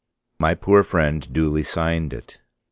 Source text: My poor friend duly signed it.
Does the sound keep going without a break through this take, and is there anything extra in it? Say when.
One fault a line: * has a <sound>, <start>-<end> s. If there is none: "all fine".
all fine